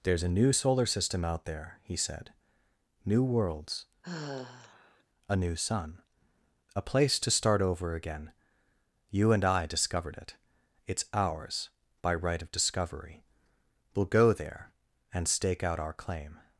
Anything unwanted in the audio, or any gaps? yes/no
yes